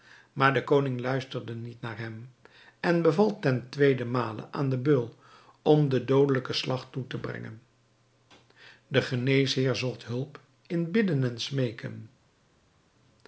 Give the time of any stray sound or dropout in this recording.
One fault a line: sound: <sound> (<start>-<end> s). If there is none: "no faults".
no faults